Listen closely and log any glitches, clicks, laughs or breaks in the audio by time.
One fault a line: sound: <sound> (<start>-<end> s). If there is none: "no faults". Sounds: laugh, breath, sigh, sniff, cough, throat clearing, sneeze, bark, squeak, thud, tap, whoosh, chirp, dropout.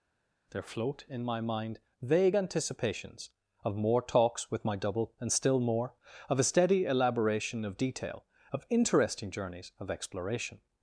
no faults